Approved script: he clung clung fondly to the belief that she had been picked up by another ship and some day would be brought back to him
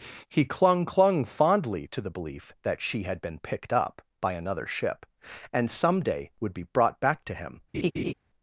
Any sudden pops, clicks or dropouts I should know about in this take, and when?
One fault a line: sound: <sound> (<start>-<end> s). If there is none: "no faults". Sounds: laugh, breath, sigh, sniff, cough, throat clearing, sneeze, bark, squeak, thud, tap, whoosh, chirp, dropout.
sound: laugh (7.7-8.1 s)